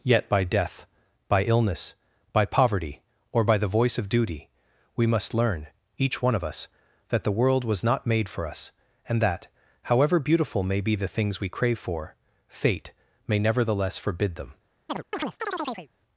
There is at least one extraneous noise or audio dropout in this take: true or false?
true